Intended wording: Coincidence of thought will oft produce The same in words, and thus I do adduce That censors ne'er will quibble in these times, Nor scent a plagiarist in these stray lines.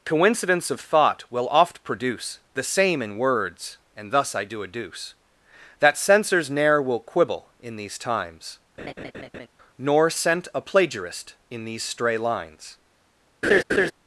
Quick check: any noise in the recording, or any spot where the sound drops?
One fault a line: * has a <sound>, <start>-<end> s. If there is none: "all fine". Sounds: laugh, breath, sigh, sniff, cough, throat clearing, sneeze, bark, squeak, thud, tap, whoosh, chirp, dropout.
* has a laugh, 8.8-9.5 s
* has a laugh, 13.4-13.9 s